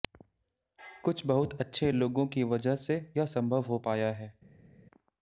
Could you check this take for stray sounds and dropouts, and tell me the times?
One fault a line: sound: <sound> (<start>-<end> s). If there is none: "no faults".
no faults